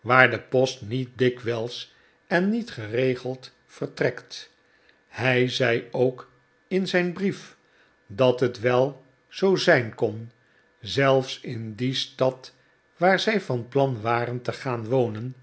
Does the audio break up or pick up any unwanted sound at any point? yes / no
no